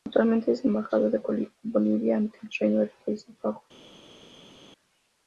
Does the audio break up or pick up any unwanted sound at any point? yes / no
no